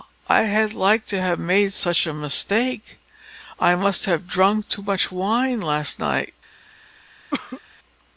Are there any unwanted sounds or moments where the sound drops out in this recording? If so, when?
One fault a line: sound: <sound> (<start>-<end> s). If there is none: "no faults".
sound: cough (7.3-7.6 s)